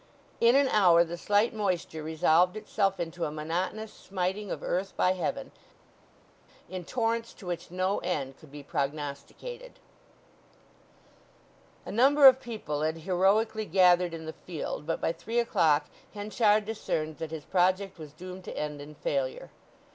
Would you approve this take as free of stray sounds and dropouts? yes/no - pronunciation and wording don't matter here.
yes